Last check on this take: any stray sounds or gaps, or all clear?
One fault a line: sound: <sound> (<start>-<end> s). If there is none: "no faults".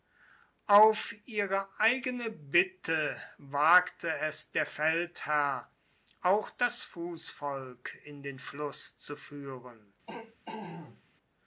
sound: throat clearing (10.1-11.0 s)